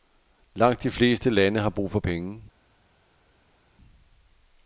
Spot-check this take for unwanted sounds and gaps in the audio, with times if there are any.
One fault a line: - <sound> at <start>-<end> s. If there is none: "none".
none